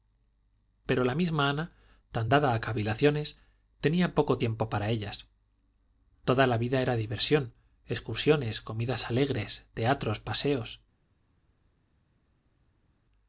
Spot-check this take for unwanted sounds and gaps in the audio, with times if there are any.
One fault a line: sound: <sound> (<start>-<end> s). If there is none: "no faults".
no faults